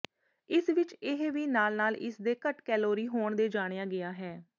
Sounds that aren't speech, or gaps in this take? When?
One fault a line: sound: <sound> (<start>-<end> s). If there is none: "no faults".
no faults